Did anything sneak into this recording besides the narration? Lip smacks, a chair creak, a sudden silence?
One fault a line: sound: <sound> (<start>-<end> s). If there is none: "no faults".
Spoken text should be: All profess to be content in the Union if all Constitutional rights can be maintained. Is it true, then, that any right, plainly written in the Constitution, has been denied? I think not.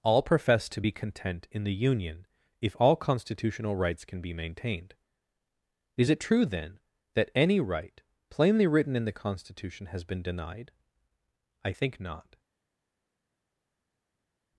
no faults